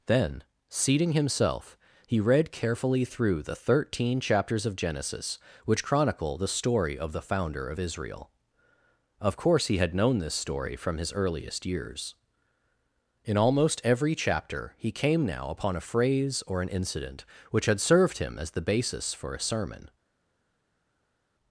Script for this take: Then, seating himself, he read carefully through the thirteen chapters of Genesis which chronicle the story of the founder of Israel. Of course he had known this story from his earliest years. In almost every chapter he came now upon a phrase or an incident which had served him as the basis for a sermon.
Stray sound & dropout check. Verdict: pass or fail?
pass